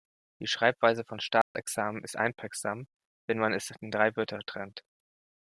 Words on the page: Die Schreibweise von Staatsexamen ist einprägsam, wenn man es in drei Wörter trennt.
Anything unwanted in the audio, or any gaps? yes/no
yes